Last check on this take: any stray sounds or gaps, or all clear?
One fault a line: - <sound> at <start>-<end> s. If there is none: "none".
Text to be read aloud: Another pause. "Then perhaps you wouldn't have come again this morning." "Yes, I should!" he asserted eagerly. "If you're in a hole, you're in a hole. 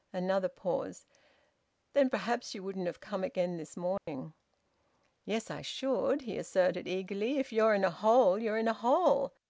- dropout at 4.0-4.1 s